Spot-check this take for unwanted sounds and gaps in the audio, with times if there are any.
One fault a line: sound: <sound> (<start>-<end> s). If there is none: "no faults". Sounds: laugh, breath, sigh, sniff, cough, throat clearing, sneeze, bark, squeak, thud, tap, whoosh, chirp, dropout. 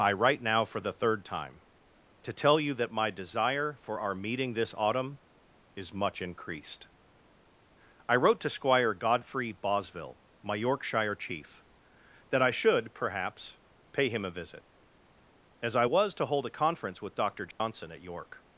sound: dropout (17.5-17.6 s)